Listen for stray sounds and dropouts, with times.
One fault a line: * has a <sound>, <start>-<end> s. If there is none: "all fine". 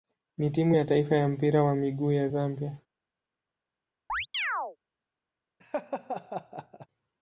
* has a chirp, 4.1-4.8 s
* has a laugh, 5.6-6.9 s